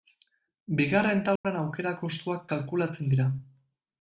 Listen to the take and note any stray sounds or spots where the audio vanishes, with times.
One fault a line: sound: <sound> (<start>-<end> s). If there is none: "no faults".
sound: dropout (1.4-1.4 s)